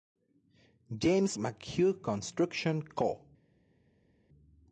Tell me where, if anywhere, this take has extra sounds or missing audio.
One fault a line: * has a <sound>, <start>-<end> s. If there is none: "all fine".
all fine